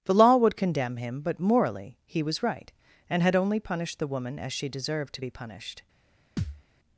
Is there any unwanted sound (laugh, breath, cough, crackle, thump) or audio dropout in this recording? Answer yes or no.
yes